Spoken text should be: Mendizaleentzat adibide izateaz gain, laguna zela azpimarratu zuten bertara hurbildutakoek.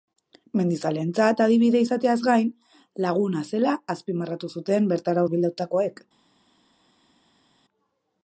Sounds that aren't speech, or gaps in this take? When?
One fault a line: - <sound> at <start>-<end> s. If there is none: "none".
none